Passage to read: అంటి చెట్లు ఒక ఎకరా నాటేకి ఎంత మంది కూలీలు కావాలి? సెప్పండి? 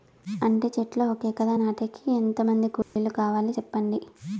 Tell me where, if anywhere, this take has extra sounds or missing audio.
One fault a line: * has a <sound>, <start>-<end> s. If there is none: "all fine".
* has a dropout, 2.8-3.0 s